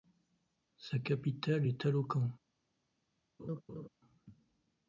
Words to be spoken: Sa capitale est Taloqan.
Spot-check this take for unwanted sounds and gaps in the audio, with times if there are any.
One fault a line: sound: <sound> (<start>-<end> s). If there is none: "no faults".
sound: laugh (3.4-3.9 s)